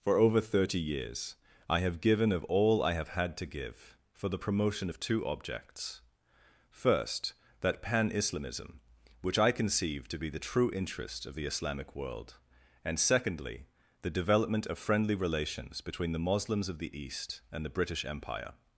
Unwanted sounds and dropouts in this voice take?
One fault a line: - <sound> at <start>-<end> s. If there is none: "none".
none